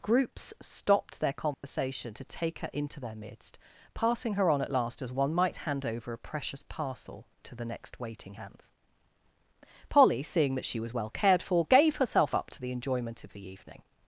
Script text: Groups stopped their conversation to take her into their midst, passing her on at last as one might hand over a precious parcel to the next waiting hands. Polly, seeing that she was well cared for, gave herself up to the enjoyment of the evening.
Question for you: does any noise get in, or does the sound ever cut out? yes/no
yes